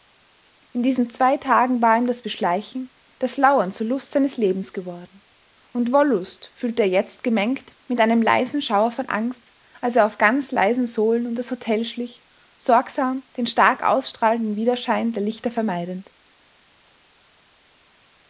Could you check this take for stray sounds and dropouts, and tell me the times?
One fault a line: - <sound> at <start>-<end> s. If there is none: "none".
none